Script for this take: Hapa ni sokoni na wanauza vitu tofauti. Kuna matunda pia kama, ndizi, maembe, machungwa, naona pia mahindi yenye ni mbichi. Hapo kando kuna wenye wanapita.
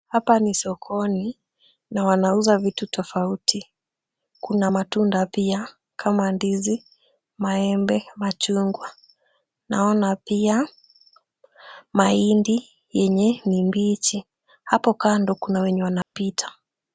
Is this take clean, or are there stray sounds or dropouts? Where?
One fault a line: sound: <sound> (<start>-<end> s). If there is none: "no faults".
sound: dropout (16.0-16.1 s)